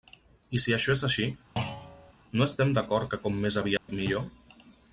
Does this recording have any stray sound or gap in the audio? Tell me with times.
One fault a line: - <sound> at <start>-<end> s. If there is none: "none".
- thud at 1.6-2.1 s
- dropout at 3.8-3.9 s